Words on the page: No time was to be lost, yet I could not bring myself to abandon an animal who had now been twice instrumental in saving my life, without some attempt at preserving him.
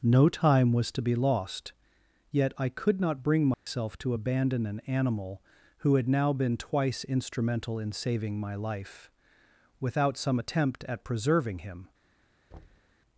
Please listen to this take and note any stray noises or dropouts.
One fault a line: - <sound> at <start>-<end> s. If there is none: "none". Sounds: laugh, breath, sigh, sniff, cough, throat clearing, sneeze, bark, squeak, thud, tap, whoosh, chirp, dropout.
- dropout at 3.5-3.7 s
- thud at 12.5-13.0 s